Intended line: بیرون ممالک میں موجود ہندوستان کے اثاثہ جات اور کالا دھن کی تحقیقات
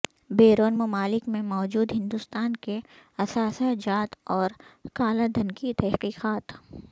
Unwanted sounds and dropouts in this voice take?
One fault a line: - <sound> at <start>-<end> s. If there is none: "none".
none